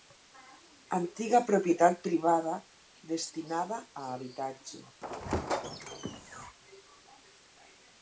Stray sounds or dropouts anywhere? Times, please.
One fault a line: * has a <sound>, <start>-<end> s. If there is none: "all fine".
* has a squeak, 5.0-6.6 s